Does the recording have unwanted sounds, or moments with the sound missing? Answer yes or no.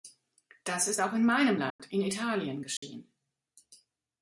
yes